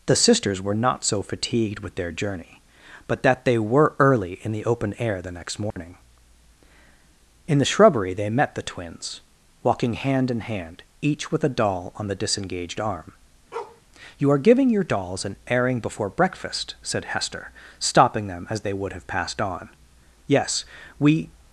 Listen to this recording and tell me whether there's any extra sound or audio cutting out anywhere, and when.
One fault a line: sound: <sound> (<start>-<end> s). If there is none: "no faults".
sound: dropout (5.7-5.8 s)
sound: bark (13.5-13.8 s)